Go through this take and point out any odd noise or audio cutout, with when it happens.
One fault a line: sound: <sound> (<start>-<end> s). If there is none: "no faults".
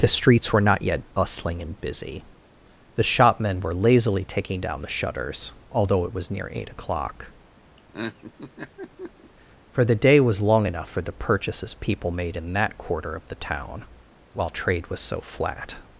sound: laugh (7.8-9.3 s)